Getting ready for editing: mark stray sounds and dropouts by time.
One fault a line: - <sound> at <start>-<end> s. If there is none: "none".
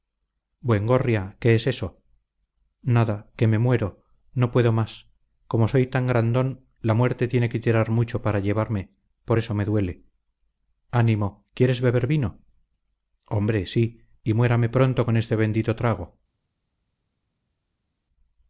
none